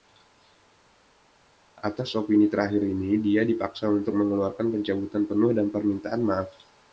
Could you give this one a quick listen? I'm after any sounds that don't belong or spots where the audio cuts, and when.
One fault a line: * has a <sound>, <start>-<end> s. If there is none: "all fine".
all fine